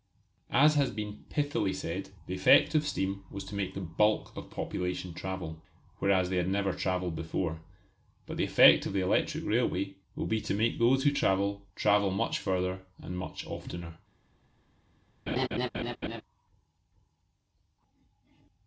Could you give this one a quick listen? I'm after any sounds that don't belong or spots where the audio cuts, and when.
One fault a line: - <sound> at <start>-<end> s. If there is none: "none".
- laugh at 15.3-16.2 s